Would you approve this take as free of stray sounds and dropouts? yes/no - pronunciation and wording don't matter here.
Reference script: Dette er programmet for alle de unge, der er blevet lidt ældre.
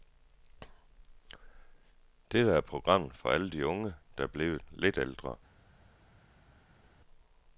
yes